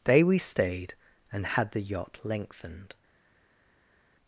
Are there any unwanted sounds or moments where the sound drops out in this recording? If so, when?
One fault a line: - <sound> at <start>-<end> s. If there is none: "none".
none